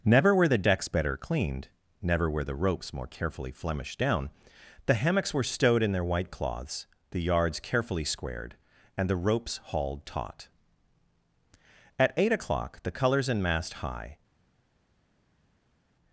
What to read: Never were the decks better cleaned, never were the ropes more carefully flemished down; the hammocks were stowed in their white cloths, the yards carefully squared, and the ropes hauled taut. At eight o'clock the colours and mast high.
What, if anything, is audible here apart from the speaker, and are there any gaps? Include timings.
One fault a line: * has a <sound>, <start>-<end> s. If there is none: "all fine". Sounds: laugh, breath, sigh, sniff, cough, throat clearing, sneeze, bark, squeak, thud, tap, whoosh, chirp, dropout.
all fine